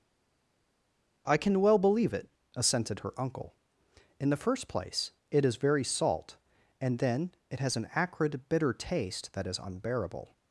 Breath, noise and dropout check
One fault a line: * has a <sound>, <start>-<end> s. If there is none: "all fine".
all fine